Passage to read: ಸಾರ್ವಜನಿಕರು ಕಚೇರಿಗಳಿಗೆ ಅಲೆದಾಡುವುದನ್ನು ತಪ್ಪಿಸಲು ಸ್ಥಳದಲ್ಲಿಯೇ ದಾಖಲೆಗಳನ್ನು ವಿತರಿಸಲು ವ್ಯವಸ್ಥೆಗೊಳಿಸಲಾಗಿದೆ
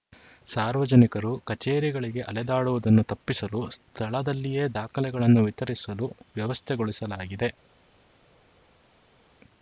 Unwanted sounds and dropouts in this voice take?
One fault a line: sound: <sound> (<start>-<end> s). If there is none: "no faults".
no faults